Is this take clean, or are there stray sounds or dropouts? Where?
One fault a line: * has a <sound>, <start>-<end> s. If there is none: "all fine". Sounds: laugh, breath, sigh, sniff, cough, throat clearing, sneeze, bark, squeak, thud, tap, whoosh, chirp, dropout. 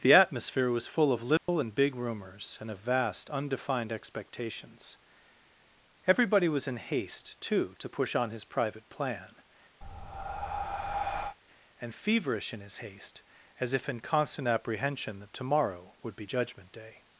* has a dropout, 1.4-1.5 s
* has a breath, 9.8-11.4 s